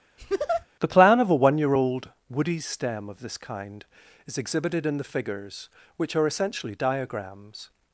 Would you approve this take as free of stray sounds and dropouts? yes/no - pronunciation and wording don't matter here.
no